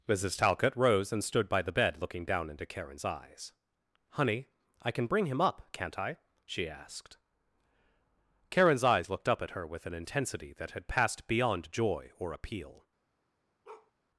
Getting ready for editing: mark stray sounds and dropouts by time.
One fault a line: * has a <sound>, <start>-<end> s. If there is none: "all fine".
* has a bark, 13.6-13.9 s